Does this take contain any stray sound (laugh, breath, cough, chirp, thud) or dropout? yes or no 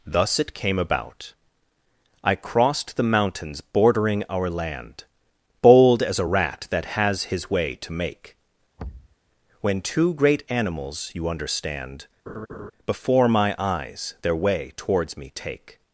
yes